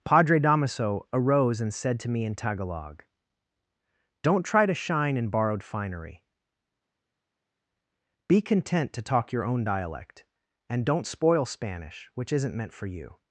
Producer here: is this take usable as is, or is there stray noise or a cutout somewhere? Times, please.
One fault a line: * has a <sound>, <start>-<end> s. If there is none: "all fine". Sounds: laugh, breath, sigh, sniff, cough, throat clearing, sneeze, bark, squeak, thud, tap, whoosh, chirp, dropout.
all fine